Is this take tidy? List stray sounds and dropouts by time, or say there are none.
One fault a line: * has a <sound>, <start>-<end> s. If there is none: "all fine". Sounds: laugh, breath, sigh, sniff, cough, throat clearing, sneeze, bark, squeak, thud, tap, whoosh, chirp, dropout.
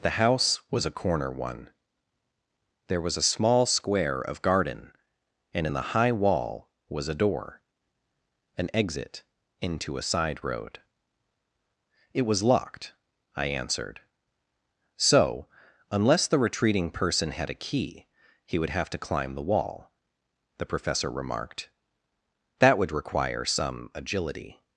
all fine